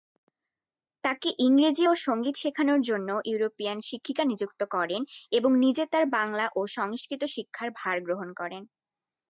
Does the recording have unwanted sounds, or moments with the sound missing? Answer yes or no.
no